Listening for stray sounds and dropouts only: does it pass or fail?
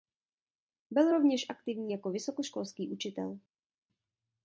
pass